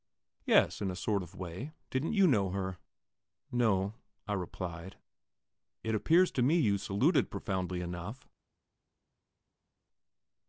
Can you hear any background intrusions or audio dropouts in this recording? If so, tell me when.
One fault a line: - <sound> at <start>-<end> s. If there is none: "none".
none